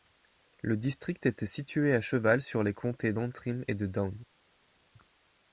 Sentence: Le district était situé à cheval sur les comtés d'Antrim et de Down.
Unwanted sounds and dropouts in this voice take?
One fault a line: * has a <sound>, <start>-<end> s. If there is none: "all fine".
all fine